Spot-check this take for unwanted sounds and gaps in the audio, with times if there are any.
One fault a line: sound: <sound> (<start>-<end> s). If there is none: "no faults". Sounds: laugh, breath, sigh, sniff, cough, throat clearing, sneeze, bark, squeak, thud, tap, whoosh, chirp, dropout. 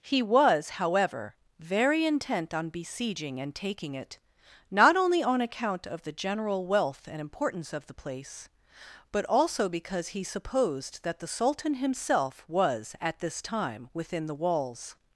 no faults